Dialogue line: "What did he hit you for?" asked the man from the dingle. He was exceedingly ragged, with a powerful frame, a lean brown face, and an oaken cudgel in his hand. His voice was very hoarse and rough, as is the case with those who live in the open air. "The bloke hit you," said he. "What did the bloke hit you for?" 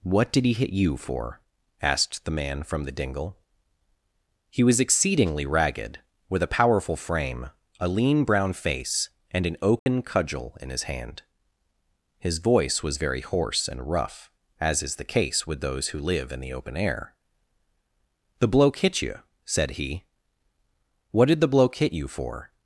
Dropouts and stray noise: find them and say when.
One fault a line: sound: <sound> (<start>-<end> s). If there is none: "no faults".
sound: dropout (9.8-9.9 s)